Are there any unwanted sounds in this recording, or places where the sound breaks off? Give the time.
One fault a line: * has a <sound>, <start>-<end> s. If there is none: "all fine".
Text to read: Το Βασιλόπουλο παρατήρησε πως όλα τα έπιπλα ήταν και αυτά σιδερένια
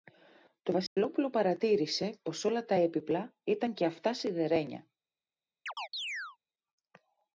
* has a dropout, 0.9-1.0 s
* has a chirp, 5.7-6.4 s